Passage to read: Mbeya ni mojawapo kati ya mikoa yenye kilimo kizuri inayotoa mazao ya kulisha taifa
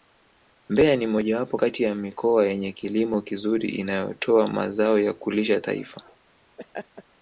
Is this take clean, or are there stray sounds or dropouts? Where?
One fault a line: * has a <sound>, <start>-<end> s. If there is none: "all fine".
* has a laugh, 6.6-7.0 s